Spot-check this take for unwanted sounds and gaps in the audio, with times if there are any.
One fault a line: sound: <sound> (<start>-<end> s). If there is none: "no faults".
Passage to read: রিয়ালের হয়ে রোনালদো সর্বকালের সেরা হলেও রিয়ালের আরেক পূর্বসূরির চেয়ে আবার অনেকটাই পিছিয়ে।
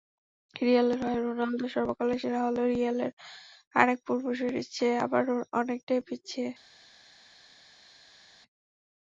no faults